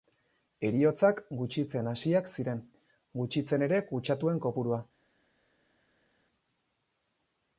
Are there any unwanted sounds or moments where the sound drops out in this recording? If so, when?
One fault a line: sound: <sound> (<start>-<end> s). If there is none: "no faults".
no faults